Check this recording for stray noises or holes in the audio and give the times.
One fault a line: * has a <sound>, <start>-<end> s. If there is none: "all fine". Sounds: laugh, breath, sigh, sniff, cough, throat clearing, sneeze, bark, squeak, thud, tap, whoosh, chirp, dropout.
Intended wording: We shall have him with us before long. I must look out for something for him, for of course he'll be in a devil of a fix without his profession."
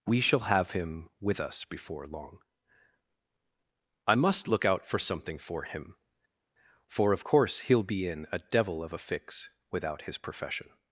all fine